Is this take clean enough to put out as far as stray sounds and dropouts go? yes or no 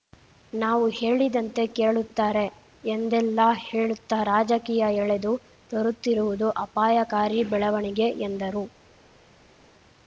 yes